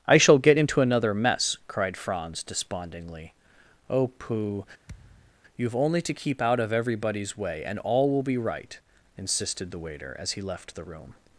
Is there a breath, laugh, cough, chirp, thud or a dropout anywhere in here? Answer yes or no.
yes